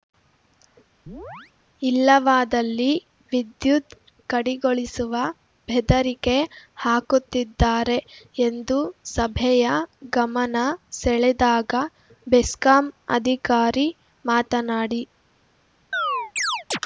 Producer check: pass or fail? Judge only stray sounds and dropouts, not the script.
fail